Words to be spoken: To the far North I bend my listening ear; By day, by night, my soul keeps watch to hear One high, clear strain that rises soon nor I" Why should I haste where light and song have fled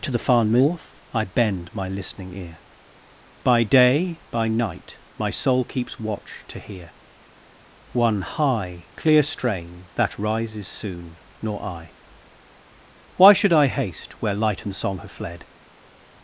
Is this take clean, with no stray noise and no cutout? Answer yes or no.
yes